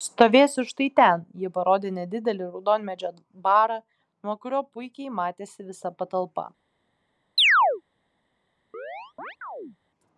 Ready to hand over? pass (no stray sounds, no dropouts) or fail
fail